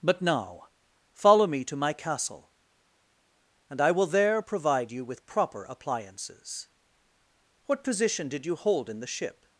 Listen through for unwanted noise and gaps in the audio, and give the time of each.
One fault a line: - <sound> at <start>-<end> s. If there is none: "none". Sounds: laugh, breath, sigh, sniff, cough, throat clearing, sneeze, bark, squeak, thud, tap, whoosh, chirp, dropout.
none